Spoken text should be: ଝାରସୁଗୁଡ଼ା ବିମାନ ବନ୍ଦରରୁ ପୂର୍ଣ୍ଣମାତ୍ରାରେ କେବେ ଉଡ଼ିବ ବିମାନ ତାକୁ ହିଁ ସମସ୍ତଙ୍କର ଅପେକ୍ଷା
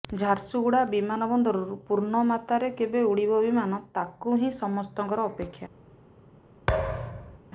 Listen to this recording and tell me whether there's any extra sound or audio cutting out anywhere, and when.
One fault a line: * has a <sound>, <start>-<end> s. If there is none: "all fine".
* has a thud, 6.7-7.4 s